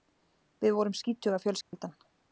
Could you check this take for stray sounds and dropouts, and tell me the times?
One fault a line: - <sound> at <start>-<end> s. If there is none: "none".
- dropout at 1.6-1.7 s